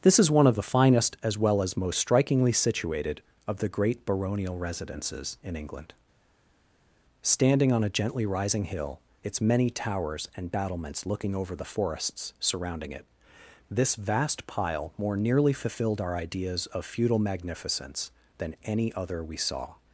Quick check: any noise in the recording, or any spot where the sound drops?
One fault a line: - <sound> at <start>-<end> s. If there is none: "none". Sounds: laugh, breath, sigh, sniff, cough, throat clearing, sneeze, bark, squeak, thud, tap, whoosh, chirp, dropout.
none